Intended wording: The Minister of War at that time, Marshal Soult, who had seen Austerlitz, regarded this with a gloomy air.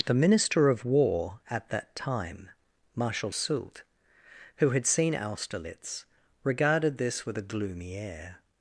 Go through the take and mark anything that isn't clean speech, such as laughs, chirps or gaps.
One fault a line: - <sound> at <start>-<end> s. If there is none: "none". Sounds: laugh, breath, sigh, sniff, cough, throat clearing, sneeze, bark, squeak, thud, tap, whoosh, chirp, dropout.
none